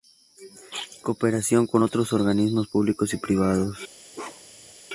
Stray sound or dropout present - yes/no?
yes